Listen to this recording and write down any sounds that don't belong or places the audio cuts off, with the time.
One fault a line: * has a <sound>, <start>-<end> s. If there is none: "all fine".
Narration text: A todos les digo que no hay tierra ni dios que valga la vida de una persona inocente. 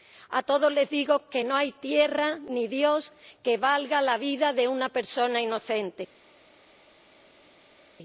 all fine